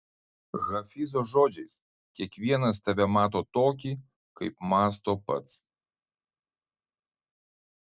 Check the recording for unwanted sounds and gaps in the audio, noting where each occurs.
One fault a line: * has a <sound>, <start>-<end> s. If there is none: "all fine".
all fine